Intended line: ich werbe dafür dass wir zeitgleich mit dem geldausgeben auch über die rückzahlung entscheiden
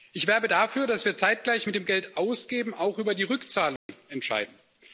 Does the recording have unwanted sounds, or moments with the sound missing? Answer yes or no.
yes